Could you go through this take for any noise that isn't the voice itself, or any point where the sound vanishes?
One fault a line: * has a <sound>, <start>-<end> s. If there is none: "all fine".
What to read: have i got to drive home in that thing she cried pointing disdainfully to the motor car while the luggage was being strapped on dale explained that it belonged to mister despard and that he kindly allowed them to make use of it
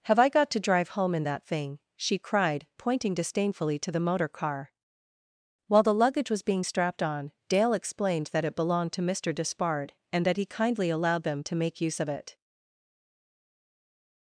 all fine